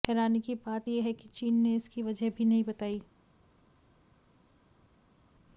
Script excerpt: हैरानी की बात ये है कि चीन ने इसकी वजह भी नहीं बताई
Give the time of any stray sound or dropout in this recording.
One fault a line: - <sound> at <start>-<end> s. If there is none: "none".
none